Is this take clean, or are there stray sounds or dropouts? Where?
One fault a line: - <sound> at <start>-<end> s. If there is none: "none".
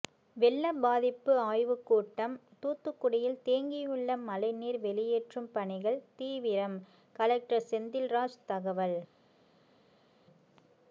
none